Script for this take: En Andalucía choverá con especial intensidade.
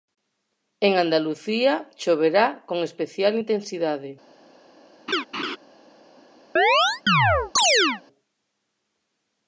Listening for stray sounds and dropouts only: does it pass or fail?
fail